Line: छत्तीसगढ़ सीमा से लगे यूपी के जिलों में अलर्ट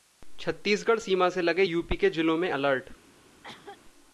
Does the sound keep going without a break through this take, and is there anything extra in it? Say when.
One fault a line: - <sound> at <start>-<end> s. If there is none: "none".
- cough at 3.4-3.8 s